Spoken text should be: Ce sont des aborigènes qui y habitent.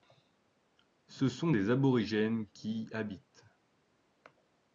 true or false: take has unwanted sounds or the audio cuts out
false